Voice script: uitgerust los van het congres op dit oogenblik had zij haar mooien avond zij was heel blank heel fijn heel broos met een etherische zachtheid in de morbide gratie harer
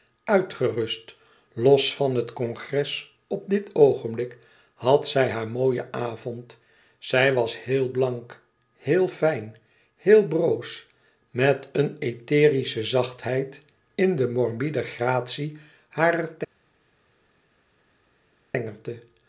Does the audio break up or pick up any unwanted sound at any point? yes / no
no